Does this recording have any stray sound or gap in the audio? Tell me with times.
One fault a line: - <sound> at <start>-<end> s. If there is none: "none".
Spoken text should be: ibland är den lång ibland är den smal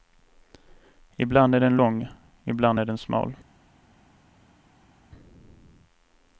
none